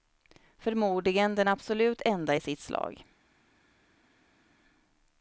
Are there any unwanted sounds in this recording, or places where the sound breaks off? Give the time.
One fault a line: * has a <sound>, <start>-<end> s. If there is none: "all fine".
all fine